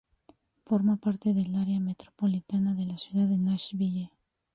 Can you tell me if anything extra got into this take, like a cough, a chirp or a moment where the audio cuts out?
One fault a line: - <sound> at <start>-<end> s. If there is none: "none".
none